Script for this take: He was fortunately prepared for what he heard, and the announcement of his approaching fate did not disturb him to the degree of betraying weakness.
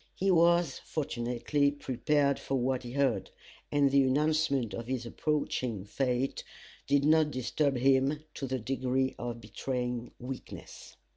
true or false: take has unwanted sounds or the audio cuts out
false